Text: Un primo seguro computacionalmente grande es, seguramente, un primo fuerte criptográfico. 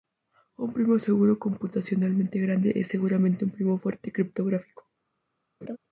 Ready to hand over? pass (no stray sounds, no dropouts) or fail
fail